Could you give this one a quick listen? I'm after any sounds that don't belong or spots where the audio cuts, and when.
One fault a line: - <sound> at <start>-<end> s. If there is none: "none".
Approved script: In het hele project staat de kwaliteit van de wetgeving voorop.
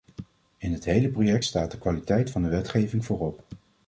none